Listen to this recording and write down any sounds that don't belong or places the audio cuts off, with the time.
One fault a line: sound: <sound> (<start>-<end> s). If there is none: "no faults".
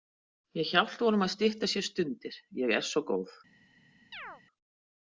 sound: chirp (4.1-4.4 s)